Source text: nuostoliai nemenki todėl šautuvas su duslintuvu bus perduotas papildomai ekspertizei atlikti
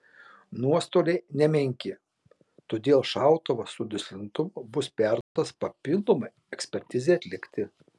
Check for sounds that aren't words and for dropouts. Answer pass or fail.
fail